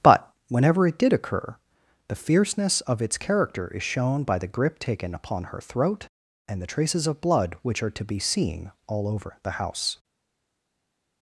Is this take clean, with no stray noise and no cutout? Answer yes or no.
yes